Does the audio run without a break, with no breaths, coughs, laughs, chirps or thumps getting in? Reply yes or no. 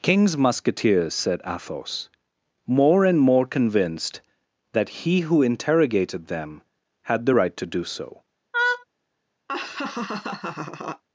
no